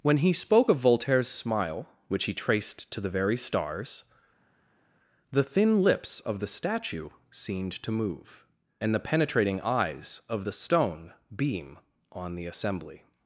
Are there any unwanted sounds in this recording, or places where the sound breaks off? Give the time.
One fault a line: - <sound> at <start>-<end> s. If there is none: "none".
none